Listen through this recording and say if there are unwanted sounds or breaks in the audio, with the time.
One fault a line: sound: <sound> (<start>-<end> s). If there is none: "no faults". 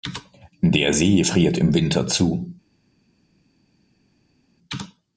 no faults